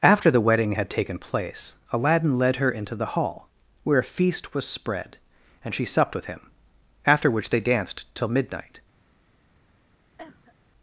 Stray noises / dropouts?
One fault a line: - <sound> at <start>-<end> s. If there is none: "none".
- cough at 10.2-10.5 s